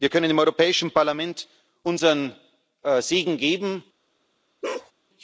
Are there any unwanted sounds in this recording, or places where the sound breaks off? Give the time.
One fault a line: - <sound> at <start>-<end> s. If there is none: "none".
- bark at 4.6-4.9 s